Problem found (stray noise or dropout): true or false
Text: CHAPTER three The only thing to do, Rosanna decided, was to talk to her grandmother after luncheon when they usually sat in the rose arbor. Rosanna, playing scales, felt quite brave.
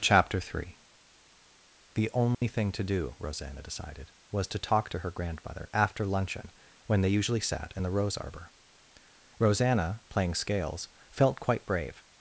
true